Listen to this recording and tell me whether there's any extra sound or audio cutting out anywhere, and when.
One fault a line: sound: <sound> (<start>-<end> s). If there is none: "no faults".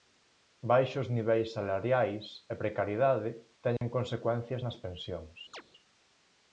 sound: dropout (3.8-3.8 s)
sound: chirp (5.5-5.6 s)